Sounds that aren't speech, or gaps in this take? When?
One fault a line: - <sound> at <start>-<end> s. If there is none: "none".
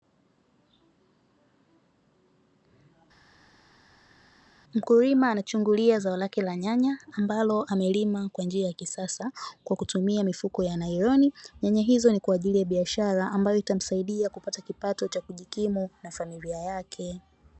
none